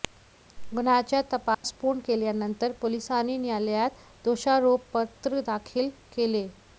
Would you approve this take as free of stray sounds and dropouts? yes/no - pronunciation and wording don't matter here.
no